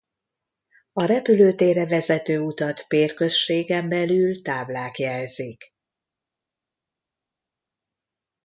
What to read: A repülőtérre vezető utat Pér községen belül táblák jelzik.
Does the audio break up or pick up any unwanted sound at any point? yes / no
no